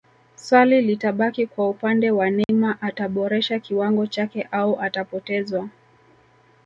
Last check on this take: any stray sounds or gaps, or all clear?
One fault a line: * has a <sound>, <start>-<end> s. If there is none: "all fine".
* has a dropout, 2.4-2.5 s